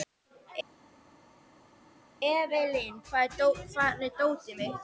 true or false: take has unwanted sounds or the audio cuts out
false